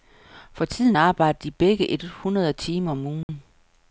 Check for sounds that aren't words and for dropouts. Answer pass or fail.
fail